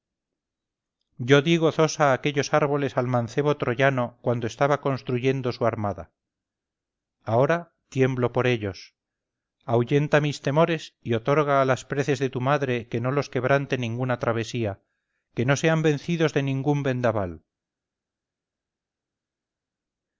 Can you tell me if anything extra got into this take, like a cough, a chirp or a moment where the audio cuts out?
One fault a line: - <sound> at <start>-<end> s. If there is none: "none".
none